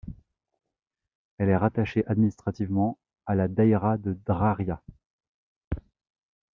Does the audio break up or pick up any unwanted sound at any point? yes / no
no